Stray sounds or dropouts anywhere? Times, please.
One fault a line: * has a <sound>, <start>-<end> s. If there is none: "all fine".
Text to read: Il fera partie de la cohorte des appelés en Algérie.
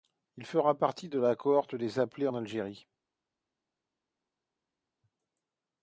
all fine